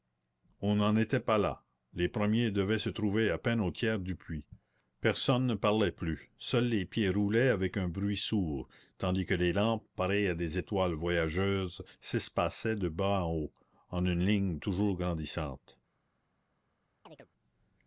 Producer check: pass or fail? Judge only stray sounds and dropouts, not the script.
fail